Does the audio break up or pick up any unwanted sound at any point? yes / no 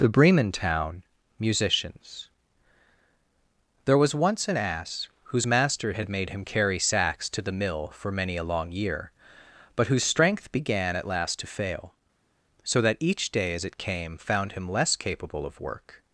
no